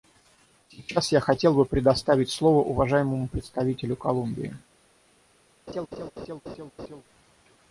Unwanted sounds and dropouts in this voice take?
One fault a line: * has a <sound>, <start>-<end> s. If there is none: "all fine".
* has a laugh, 5.7-7.0 s